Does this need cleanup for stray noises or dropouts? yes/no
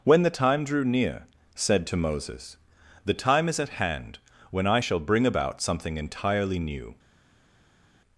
no